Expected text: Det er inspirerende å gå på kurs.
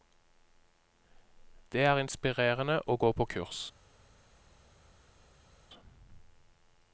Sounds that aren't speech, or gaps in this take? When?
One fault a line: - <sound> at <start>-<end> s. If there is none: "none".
none